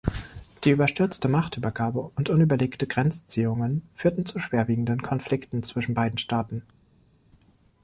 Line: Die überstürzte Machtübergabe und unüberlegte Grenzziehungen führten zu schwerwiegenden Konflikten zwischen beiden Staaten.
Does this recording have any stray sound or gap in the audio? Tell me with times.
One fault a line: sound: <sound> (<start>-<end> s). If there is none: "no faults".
no faults